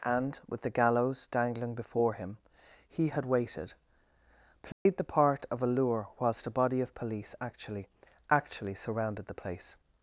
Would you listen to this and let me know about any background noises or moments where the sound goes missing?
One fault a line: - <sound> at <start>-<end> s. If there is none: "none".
- dropout at 4.7-4.9 s